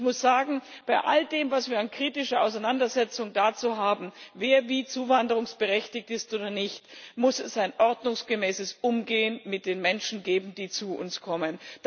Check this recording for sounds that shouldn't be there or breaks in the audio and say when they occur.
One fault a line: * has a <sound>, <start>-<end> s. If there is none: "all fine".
all fine